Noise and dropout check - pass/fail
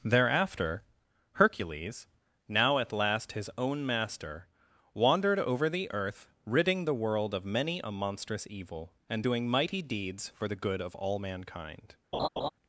fail